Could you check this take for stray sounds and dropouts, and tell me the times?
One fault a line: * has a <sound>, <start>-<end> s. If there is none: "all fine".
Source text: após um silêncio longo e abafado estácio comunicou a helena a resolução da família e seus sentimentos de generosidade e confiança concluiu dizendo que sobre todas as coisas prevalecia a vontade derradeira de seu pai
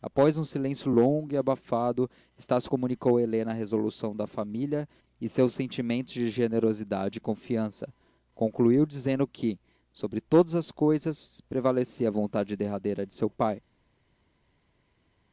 all fine